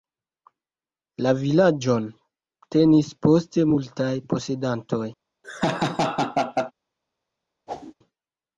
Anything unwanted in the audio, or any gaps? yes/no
yes